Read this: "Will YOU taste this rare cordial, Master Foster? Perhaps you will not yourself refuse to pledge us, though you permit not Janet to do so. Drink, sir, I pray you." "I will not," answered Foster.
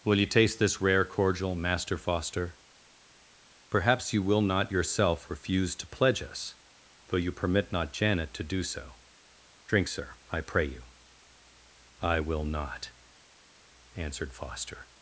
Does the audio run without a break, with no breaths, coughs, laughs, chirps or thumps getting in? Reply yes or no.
yes